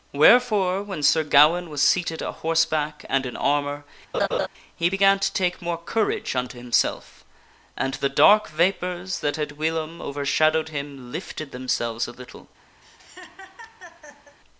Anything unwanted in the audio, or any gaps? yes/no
yes